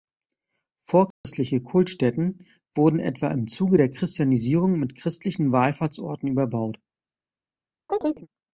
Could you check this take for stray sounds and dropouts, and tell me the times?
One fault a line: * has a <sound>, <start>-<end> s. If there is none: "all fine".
* has a dropout, 1.1-1.2 s
* has a chirp, 7.9-8.3 s